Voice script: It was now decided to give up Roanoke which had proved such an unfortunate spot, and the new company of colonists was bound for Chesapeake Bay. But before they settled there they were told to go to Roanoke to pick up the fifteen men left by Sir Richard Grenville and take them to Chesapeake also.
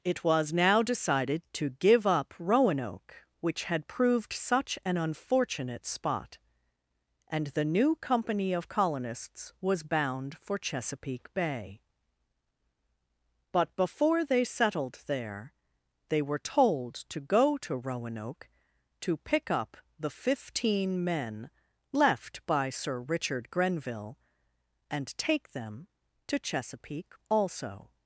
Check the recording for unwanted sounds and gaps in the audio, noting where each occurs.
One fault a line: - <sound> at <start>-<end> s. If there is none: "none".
none